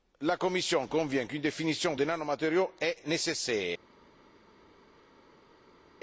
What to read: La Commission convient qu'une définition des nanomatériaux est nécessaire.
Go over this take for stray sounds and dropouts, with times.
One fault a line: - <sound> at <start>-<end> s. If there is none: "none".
none